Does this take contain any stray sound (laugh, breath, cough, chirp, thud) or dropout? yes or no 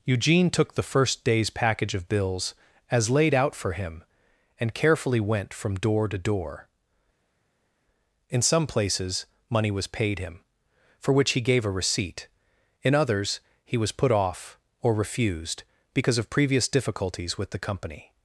no